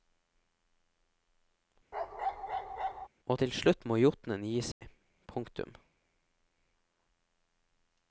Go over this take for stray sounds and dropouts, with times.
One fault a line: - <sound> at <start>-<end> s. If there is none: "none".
- bark at 1.9-3.1 s
- dropout at 4.7-4.8 s